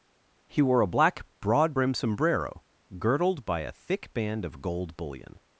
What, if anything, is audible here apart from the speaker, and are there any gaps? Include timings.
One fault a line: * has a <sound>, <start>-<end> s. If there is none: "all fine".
all fine